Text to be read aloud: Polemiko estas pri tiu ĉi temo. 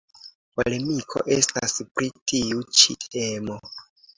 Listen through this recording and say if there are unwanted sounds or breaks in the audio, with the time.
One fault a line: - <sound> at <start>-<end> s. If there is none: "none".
none